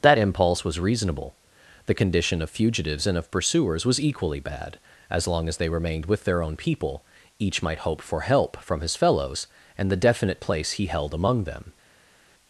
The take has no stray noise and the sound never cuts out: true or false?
true